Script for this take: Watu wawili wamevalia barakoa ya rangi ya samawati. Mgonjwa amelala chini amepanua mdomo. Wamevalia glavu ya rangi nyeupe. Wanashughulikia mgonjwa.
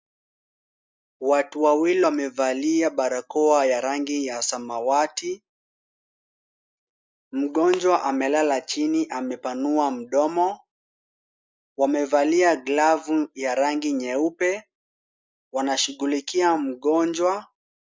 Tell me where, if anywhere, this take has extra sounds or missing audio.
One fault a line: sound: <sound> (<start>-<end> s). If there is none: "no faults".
no faults